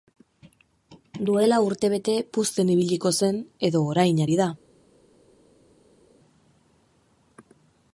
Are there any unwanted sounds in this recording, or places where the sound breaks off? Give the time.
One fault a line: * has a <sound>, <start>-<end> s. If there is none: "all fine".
all fine